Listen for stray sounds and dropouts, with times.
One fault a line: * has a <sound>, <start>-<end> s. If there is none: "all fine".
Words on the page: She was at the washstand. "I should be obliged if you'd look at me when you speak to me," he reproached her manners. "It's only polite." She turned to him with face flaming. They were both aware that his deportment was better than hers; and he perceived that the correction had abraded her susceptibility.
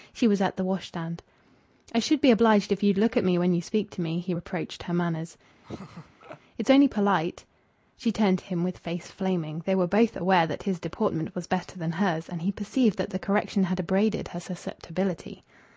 * has a laugh, 5.6-6.4 s